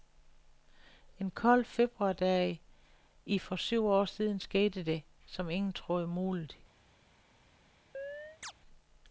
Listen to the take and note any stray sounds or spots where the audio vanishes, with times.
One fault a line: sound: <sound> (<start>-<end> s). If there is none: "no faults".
sound: chirp (7.9-8.5 s)